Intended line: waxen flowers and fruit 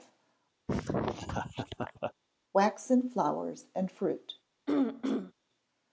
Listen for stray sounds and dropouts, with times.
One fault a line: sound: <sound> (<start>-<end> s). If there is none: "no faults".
sound: laugh (0.7-2.1 s)
sound: throat clearing (4.7-5.3 s)